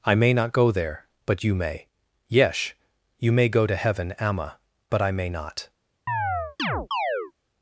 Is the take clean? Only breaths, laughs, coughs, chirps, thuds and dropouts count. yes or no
no